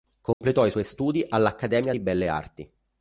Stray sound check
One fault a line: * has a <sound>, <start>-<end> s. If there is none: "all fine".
* has a dropout, 0.3-0.4 s